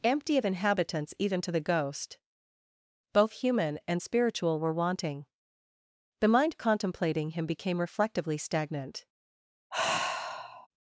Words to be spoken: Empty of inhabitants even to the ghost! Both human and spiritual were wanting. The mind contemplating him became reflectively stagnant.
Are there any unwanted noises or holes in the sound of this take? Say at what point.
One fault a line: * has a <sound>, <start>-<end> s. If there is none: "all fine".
* has a sigh, 9.7-10.7 s